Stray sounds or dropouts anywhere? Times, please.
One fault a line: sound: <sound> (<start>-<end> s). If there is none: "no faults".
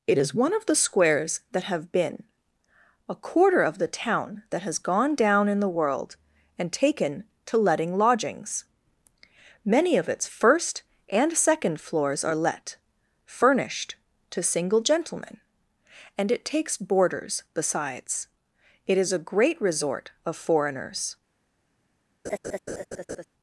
sound: laugh (22.2-23.2 s)